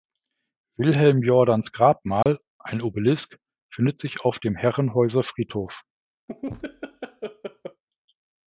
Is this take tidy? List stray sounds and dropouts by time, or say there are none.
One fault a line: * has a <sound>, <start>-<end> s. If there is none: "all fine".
* has a dropout, 2.2-2.3 s
* has a laugh, 6.3-7.8 s